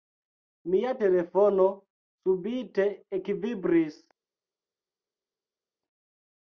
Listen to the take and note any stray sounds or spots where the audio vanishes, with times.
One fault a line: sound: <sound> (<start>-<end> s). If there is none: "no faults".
no faults